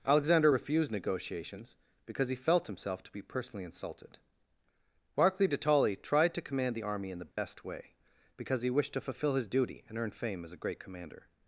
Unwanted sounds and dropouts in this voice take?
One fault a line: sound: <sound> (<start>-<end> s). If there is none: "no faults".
sound: dropout (7.3-7.4 s)